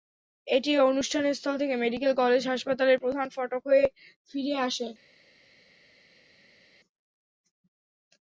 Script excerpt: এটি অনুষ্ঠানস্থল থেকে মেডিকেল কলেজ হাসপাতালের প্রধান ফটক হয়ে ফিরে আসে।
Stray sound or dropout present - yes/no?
no